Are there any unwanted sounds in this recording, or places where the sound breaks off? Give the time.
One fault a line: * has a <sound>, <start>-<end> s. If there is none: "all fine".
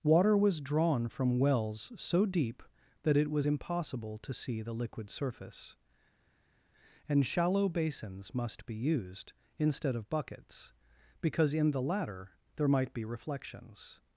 all fine